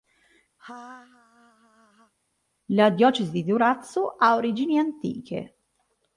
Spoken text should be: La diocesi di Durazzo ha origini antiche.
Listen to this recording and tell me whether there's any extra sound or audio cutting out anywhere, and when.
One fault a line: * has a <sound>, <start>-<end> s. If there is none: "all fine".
* has a laugh, 0.6-2.1 s